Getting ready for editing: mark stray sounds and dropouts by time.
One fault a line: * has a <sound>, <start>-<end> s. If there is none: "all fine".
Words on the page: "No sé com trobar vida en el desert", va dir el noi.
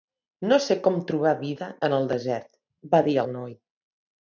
all fine